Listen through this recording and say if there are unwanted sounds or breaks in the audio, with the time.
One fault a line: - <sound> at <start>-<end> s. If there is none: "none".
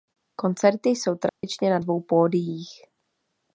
- dropout at 1.3-1.4 s